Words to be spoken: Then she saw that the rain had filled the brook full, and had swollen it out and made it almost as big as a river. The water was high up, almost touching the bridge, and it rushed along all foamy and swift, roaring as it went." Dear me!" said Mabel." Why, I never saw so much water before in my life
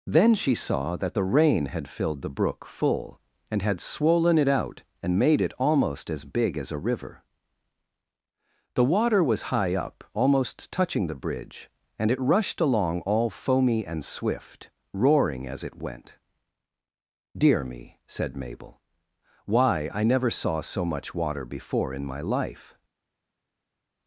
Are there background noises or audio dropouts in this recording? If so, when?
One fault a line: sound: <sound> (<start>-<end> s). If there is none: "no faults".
no faults